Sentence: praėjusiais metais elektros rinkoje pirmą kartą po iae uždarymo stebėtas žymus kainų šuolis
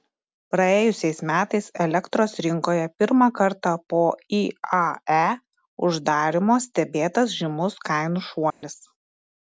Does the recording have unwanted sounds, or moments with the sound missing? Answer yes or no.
yes